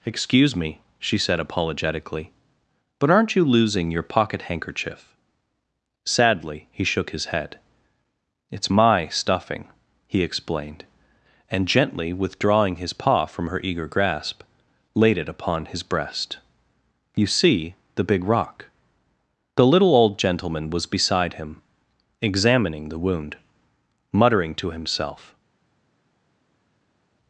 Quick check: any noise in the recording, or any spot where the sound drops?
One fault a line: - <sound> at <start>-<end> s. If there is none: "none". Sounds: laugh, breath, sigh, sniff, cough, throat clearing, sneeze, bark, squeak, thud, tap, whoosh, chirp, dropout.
none